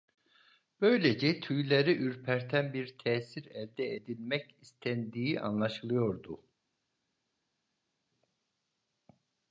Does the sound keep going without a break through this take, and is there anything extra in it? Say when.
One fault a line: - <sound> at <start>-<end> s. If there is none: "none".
none